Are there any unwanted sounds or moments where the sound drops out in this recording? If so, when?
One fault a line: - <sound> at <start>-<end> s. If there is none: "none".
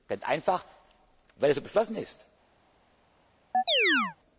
- chirp at 3.5-4.2 s